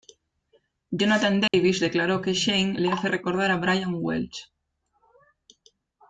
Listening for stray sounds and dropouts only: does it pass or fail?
fail